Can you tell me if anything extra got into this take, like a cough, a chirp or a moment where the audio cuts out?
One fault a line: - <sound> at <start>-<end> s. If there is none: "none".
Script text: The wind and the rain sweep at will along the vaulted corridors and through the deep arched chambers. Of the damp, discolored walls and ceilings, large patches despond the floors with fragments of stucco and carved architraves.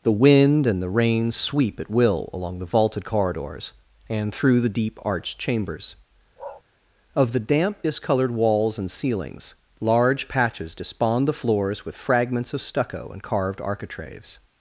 - bark at 6.4-6.6 s